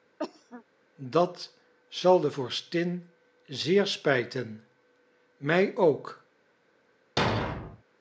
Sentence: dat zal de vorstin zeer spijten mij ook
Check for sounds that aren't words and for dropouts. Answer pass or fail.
fail